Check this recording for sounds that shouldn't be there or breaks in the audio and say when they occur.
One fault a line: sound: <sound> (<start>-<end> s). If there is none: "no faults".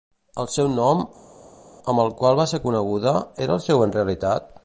no faults